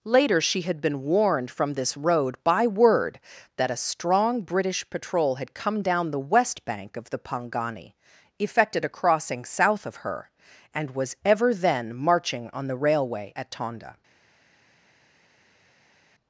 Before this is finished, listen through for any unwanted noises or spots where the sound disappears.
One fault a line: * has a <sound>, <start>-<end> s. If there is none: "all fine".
all fine